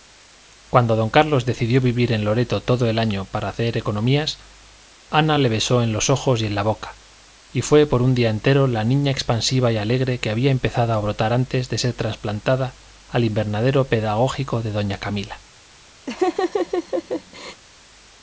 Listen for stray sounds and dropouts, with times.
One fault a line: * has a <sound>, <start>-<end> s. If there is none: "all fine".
* has a laugh, 16.1-17.6 s